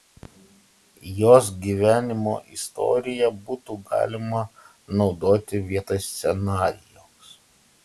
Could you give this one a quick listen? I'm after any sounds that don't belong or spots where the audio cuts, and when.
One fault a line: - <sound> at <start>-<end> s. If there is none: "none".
none